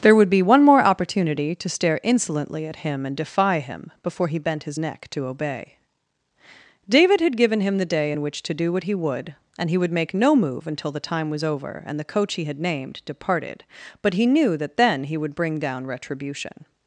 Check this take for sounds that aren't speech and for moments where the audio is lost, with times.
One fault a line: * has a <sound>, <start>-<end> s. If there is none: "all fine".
all fine